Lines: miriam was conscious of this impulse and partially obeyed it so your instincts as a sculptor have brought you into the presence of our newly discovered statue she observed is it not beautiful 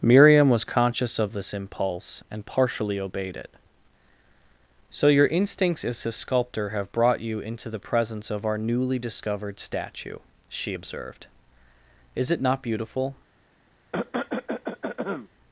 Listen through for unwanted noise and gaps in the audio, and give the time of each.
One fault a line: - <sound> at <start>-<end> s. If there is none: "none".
- cough at 13.9-15.3 s